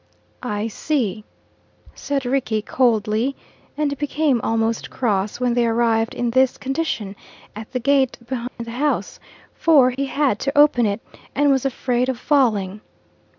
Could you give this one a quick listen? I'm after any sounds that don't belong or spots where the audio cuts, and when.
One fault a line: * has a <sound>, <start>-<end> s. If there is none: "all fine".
* has a dropout, 8.5-8.6 s
* has a dropout, 9.9-10.0 s